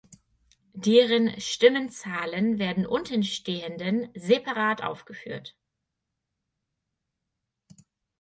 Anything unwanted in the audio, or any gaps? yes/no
no